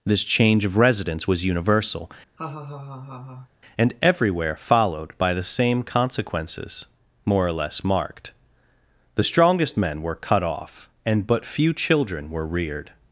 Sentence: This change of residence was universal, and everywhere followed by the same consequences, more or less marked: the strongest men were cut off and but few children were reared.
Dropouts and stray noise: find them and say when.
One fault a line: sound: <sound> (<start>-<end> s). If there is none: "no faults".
sound: laugh (2.4-3.5 s)